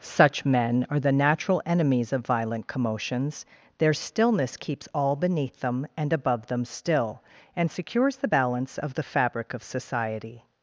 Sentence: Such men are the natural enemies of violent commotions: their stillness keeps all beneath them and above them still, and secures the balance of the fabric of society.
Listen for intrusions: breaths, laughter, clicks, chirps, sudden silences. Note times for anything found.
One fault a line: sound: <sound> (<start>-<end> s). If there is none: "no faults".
no faults